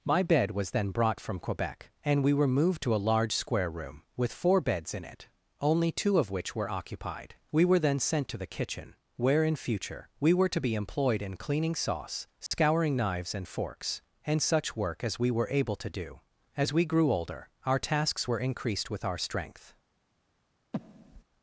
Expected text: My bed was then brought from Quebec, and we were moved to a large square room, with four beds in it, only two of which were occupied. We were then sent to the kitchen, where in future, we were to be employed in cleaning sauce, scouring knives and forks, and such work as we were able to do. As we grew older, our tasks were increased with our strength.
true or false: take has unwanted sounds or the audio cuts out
true